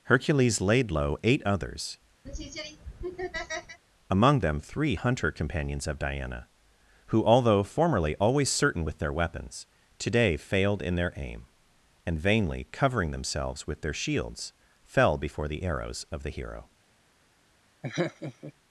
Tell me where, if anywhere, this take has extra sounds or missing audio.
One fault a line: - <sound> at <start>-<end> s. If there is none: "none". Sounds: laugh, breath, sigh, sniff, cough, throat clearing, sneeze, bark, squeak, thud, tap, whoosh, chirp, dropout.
- laugh at 2.3-3.8 s
- laugh at 17.8-18.5 s